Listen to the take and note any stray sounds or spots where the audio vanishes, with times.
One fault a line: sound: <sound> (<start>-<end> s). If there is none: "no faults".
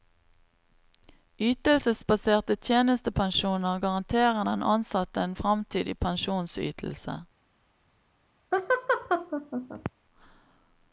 sound: laugh (8.5-9.9 s)